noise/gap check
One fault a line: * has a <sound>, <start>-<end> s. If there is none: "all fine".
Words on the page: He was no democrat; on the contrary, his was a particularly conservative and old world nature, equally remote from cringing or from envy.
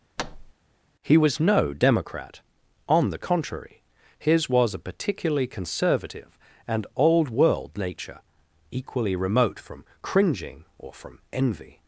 * has a thud, 0.2-0.5 s